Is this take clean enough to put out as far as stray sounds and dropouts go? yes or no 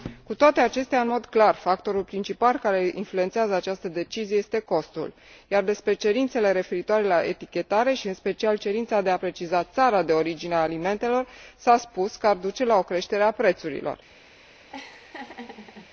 no